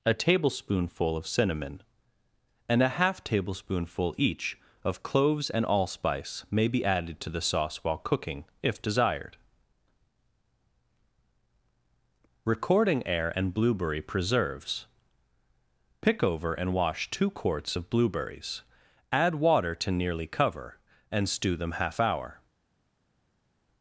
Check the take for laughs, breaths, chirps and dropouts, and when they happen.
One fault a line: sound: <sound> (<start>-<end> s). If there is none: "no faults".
no faults